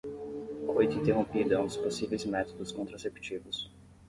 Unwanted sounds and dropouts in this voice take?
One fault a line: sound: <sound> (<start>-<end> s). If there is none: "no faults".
no faults